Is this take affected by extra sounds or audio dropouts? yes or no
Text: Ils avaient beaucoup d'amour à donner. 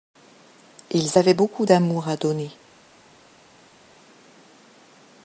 no